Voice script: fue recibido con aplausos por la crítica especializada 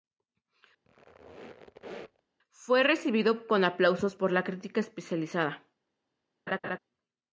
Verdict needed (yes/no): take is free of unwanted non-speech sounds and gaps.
no